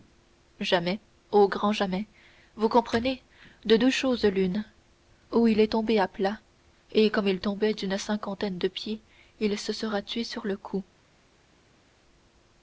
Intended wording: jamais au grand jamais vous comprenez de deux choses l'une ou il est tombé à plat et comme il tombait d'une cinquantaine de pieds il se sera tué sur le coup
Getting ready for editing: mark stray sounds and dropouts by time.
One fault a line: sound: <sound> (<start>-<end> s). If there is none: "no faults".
no faults